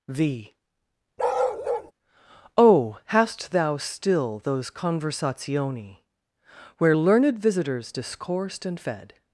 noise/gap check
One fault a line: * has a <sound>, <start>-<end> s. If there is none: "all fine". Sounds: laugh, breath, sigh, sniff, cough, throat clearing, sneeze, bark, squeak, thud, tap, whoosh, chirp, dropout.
* has a bark, 1.2-1.9 s